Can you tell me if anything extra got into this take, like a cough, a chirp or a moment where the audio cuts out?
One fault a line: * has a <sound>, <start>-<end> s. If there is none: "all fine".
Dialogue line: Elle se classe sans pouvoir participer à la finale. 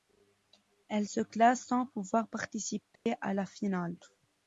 * has a dropout, 3.0-3.1 s